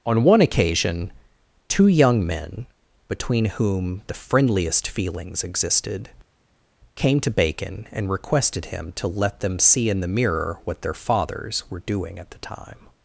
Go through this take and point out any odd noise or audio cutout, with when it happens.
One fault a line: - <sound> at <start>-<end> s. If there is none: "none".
none